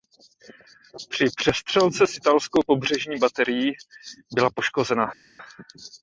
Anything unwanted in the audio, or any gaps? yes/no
no